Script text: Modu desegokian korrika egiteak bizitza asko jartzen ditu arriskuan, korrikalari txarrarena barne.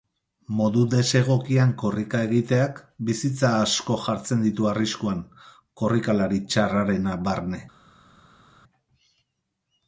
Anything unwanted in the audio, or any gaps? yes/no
no